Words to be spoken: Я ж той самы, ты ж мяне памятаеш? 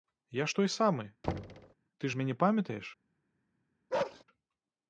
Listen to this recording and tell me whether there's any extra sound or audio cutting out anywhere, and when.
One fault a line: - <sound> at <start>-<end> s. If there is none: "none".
- thud at 1.2-1.7 s
- bark at 3.9-4.2 s